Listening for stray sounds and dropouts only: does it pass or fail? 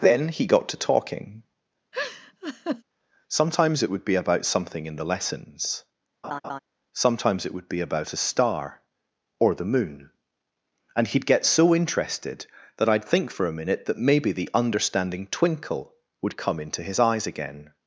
fail